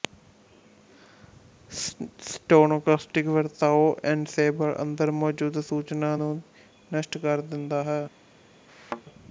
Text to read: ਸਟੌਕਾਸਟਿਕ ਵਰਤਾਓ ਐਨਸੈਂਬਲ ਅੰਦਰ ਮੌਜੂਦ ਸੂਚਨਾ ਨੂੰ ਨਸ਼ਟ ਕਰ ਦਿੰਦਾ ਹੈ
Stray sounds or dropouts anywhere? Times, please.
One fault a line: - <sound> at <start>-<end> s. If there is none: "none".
- thud at 8.7-9.0 s